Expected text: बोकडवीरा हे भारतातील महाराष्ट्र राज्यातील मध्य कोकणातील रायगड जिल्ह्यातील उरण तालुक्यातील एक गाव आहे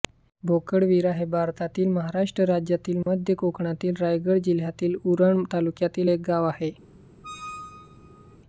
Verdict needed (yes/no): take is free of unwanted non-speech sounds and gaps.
no